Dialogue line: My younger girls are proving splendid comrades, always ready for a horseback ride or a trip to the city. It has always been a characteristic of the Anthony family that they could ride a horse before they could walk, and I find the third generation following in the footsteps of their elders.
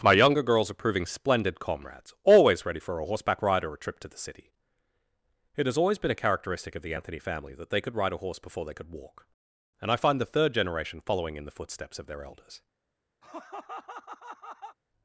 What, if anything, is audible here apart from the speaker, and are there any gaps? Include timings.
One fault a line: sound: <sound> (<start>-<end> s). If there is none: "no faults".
sound: laugh (13.2-14.8 s)